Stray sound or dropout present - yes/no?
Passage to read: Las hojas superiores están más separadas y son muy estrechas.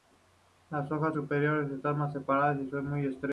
no